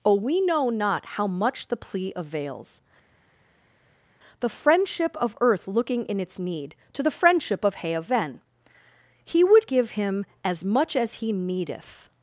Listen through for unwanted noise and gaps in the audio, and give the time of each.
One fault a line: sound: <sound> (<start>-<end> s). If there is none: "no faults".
no faults